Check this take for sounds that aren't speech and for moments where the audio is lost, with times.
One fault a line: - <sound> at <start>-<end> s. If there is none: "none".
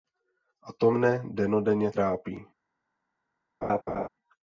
- laugh at 3.6-4.1 s